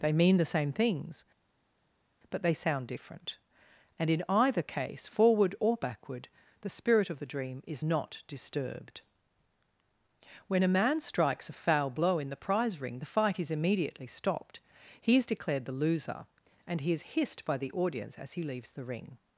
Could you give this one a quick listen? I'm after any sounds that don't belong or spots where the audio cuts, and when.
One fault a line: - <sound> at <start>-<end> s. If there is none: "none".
none